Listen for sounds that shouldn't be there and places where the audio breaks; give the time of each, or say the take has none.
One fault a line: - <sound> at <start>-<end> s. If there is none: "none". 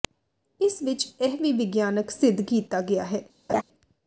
- laugh at 3.5-3.6 s